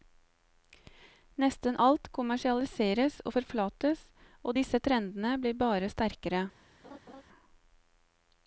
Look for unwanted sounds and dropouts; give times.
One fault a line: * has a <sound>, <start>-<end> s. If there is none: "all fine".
* has a laugh, 6.8-7.2 s